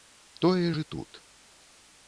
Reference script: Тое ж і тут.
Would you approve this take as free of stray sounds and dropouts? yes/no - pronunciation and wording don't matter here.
yes